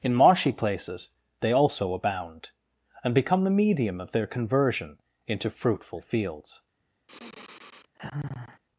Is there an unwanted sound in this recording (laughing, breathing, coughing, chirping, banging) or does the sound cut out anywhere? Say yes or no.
yes